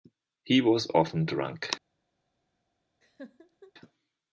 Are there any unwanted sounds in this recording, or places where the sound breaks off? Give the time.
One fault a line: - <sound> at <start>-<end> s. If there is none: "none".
- laugh at 3.0-3.7 s